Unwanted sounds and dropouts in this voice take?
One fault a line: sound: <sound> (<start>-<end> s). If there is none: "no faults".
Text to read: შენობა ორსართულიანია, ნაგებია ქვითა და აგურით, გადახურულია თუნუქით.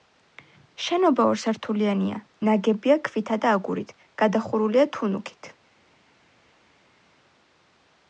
no faults